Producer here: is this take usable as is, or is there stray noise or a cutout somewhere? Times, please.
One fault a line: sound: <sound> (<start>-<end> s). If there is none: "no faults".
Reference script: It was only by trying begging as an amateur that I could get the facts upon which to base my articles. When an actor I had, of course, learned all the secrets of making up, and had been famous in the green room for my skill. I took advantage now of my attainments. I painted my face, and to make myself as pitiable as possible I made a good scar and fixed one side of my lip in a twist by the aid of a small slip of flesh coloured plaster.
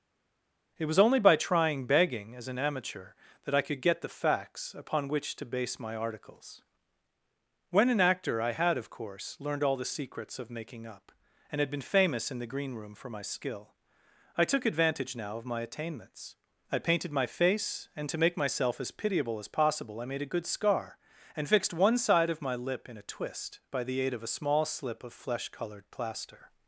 no faults